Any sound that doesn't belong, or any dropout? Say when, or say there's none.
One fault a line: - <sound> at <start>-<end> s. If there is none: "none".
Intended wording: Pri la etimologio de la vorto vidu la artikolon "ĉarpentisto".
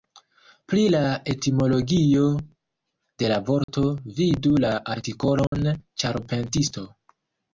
- dropout at 3.6-3.7 s
- dropout at 5.5-5.5 s